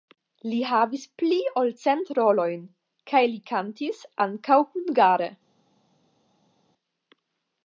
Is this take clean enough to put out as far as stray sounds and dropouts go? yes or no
yes